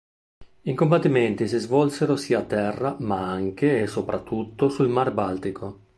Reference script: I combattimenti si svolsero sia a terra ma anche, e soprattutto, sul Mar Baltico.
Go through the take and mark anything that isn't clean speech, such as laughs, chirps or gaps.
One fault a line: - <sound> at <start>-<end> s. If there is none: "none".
none